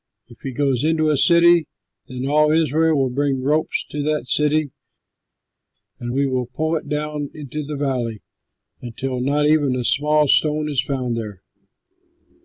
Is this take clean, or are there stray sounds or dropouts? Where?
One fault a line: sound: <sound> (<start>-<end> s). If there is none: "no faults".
no faults